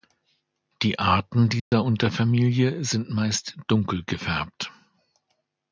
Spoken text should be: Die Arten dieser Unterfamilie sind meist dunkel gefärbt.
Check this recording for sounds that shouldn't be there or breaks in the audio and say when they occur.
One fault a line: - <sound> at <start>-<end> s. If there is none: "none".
- dropout at 1.6-1.7 s